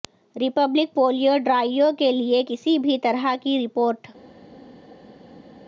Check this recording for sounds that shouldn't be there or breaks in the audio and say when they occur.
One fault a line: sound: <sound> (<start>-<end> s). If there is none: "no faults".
no faults